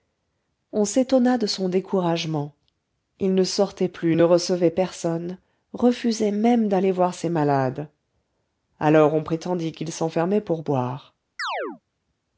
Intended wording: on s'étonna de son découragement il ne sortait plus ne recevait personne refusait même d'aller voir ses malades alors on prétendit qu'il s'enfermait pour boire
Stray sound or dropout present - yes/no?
yes